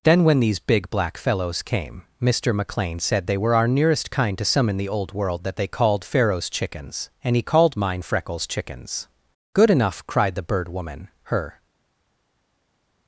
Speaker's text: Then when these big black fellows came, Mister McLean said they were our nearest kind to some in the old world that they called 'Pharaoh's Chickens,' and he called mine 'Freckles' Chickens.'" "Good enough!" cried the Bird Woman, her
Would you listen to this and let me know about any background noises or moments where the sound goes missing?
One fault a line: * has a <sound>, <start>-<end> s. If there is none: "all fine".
all fine